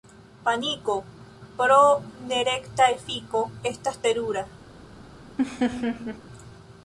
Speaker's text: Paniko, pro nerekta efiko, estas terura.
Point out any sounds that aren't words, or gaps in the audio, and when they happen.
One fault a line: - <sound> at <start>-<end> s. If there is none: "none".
- laugh at 5.4-6.2 s